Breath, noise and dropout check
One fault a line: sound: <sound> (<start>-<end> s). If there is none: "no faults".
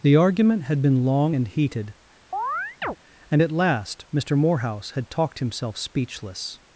sound: chirp (2.3-3.0 s)